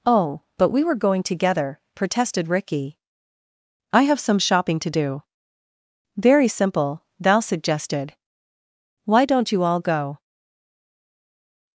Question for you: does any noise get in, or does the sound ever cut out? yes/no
no